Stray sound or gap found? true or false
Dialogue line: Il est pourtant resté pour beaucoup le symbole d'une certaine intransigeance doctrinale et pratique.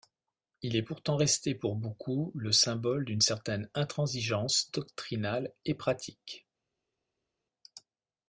false